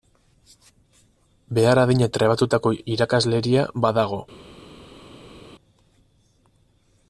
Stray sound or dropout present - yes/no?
no